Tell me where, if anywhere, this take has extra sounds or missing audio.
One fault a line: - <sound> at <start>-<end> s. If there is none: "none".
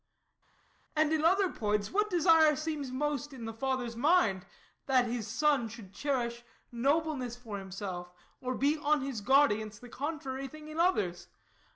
none